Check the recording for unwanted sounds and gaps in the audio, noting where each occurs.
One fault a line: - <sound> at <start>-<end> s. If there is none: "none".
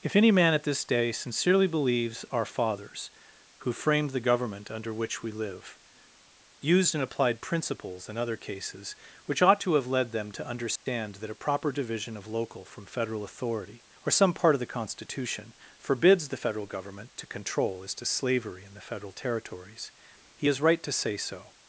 - dropout at 10.8-10.9 s